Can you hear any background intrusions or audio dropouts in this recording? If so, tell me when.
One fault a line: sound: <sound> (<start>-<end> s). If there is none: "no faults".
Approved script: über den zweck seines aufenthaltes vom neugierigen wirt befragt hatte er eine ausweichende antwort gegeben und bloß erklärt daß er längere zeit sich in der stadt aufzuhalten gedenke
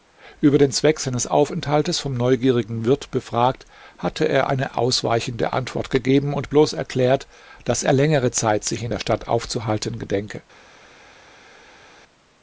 no faults